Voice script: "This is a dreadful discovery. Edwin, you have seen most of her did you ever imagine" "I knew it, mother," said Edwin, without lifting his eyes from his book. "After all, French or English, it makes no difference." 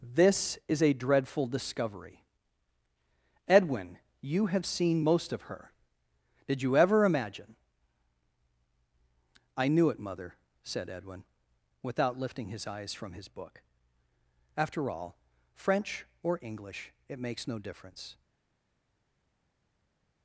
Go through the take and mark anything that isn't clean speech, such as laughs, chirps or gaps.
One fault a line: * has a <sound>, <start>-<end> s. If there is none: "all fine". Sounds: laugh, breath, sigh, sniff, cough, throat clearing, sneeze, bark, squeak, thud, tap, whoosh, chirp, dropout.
all fine